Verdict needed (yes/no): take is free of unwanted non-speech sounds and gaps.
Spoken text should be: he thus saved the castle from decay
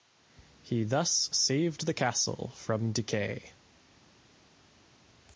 yes